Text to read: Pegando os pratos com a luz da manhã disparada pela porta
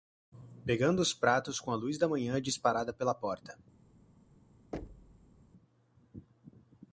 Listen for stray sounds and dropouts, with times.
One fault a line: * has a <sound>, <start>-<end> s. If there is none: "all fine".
* has a thud, 4.7-5.4 s